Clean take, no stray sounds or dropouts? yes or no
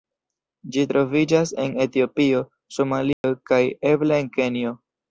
no